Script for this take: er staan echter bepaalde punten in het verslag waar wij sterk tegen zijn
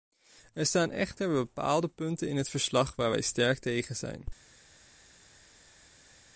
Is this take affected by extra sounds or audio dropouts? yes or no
no